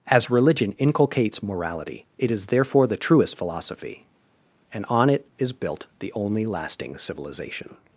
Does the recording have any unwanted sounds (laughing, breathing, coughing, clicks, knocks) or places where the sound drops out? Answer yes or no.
no